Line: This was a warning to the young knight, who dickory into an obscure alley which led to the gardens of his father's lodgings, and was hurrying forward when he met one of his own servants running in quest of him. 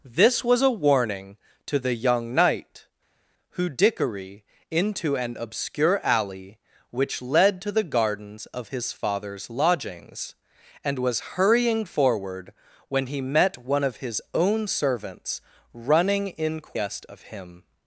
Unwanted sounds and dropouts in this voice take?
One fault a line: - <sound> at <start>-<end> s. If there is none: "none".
none